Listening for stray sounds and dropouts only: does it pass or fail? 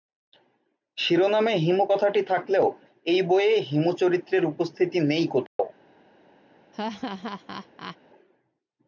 fail